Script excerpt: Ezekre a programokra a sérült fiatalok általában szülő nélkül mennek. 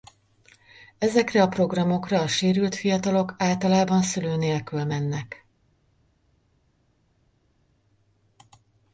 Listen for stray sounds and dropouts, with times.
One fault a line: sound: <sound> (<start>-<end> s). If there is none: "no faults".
no faults